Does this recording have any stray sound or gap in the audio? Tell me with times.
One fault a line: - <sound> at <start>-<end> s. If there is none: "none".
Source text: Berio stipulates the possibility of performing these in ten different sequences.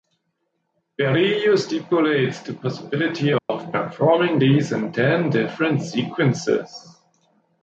- dropout at 3.4-3.5 s